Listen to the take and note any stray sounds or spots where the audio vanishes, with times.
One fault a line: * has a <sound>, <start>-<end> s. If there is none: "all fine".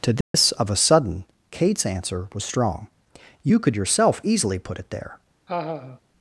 * has a dropout, 0.2-0.3 s
* has a laugh, 5.5-6.0 s